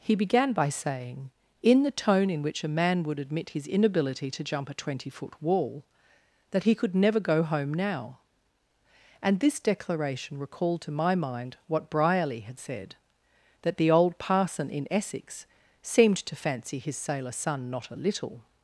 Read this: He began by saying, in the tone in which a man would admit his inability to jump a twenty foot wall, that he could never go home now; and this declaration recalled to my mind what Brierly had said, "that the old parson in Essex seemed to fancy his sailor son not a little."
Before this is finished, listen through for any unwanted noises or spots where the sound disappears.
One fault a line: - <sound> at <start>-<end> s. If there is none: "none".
none